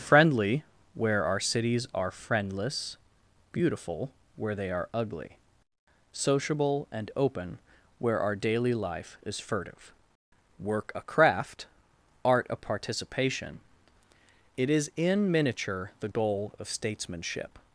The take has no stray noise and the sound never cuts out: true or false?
true